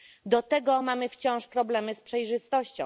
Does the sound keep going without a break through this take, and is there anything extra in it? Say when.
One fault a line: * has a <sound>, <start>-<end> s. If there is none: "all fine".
all fine